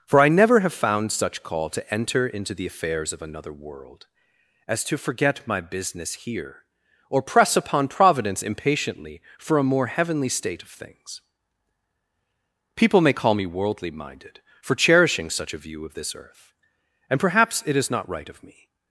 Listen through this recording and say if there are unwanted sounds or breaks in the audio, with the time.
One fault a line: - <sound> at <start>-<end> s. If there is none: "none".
none